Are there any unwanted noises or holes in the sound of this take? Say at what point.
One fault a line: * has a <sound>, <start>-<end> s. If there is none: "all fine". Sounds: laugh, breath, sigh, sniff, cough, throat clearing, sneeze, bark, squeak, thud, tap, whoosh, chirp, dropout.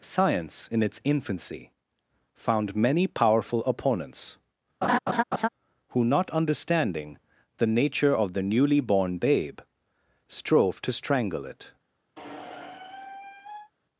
* has a laugh, 4.8-5.5 s
* has a squeak, 12.2-13.7 s